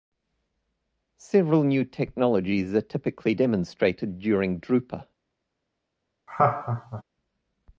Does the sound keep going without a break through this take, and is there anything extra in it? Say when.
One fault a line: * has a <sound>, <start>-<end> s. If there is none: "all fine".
* has a laugh, 6.3-7.0 s